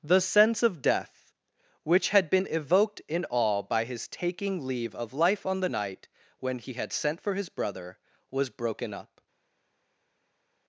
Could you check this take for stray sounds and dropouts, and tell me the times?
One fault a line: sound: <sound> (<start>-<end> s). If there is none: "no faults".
no faults